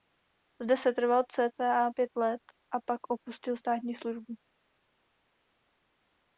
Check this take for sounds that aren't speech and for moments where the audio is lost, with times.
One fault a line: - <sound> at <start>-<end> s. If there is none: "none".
none